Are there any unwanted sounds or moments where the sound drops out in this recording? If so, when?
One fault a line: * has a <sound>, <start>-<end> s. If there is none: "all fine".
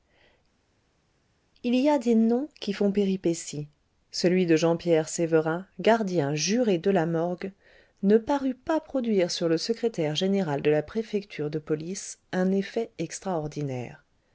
all fine